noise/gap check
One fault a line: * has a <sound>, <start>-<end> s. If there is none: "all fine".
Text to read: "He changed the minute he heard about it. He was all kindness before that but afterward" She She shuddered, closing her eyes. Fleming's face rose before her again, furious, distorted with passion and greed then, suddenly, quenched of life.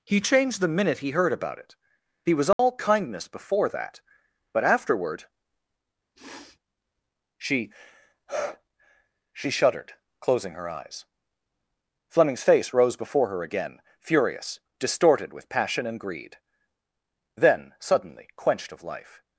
* has a dropout, 2.5-2.6 s
* has a sniff, 6.2-6.6 s